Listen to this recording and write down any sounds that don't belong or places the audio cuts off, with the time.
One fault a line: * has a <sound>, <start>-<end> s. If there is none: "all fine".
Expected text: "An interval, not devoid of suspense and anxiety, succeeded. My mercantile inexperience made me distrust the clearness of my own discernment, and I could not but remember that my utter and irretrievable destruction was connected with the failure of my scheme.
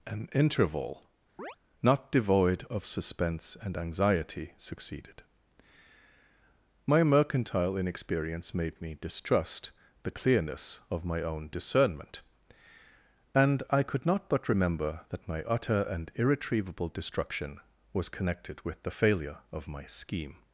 * has a chirp, 1.4-1.6 s